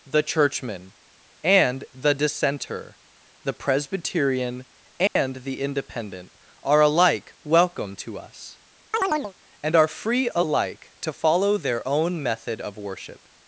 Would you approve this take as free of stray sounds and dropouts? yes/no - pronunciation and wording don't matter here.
no